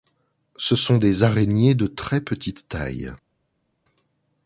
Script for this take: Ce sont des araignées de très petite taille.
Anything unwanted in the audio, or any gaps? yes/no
no